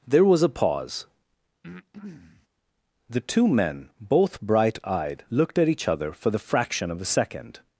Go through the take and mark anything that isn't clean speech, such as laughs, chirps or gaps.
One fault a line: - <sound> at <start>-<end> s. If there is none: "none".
- breath at 1.6-2.5 s